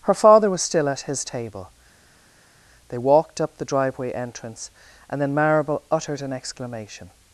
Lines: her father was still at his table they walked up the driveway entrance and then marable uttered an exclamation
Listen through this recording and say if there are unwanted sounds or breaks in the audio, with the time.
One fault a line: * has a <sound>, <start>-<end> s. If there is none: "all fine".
all fine